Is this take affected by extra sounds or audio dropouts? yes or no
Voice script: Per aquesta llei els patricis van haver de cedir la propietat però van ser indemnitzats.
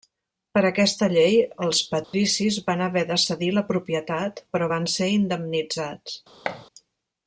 yes